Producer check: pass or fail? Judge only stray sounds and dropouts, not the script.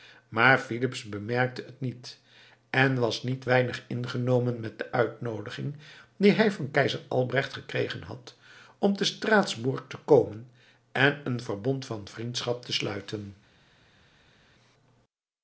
pass